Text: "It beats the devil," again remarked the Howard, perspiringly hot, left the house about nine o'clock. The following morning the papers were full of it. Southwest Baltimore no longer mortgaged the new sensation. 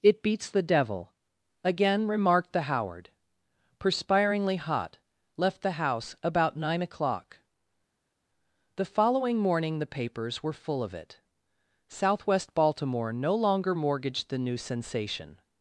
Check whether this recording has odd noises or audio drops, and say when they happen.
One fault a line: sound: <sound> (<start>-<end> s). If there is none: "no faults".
no faults